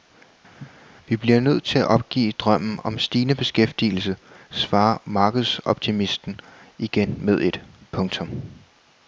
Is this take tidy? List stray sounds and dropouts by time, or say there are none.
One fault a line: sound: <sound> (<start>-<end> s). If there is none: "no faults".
sound: cough (0.6-0.7 s)